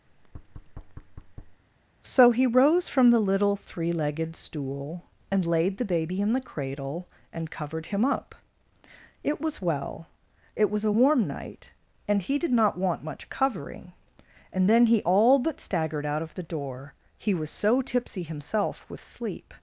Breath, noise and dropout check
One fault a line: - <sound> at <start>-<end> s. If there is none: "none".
- thud at 0.1-1.6 s